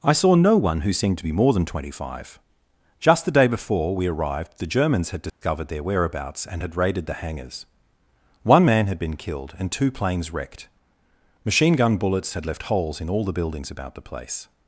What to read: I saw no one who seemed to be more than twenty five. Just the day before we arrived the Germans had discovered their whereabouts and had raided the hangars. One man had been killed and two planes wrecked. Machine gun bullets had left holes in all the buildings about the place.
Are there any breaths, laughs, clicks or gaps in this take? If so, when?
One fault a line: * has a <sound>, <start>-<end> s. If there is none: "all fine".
* has a dropout, 5.3-5.4 s